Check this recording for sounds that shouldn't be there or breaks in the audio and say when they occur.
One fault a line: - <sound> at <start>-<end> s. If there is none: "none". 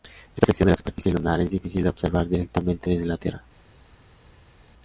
none